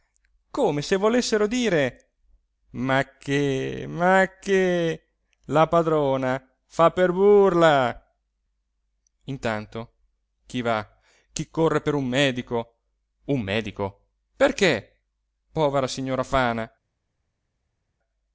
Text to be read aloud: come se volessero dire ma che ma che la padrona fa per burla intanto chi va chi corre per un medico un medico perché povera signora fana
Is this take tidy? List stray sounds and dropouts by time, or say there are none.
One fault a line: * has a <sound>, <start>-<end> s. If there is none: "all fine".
all fine